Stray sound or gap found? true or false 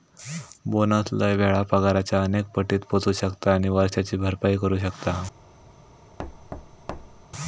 true